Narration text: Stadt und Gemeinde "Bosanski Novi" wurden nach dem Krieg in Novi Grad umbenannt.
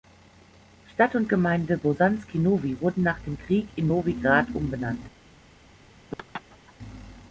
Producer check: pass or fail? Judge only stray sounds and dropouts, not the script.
fail